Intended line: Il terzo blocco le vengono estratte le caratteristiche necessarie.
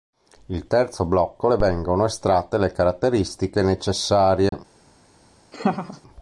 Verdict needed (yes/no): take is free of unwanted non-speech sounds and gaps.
no